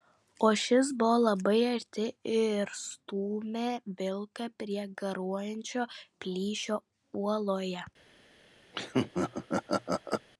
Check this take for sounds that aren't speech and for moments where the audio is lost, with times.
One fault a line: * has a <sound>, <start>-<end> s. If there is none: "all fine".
* has a laugh, 8.7-10.3 s